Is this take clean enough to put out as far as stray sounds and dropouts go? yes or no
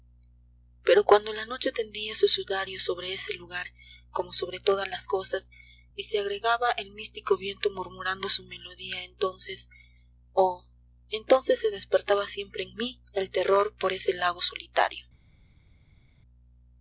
yes